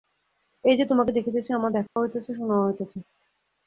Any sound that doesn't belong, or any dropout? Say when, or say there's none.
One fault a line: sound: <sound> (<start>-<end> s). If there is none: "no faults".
sound: dropout (1.9-2.0 s)